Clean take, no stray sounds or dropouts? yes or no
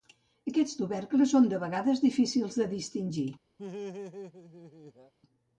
no